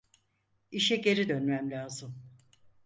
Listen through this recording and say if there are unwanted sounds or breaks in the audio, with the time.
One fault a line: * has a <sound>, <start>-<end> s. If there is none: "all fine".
all fine